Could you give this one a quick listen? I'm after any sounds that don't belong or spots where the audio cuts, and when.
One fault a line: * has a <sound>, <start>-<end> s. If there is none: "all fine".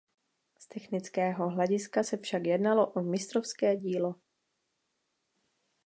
all fine